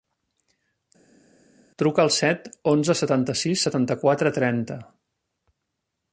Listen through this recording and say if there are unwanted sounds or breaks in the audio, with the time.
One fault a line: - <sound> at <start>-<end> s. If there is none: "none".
none